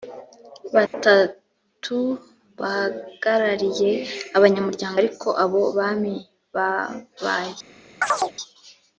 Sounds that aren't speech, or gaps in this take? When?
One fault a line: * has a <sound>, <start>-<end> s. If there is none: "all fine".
* has a dropout, 0.9-0.9 s
* has a chirp, 8.0-8.3 s